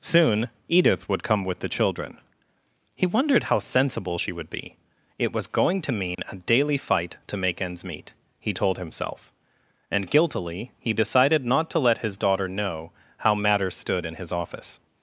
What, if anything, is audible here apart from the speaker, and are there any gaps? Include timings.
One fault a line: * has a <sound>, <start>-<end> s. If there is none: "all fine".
* has a dropout, 6.1-6.2 s